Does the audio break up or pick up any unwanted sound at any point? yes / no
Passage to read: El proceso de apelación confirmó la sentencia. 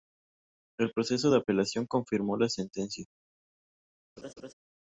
yes